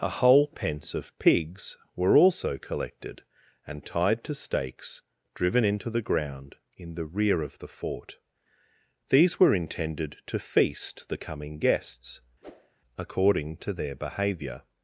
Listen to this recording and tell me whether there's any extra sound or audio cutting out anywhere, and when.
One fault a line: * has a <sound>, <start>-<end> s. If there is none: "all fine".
* has a whoosh, 12.4-12.8 s